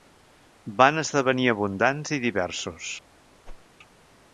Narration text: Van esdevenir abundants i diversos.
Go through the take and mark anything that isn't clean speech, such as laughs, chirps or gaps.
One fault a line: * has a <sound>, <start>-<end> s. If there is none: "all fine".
* has a whoosh, 3.4-3.7 s